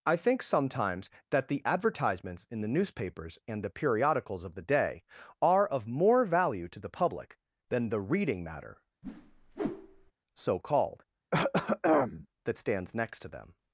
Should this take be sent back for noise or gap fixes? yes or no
yes